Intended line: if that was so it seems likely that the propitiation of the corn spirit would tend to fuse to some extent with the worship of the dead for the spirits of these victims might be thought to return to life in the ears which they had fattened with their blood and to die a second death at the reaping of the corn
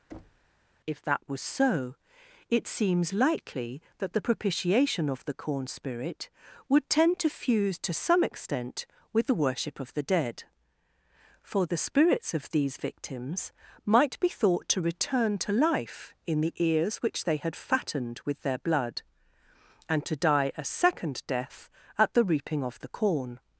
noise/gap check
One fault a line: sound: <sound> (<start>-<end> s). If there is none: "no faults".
sound: thud (0.1-0.5 s)